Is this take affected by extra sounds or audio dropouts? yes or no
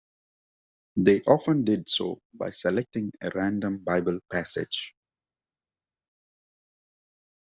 no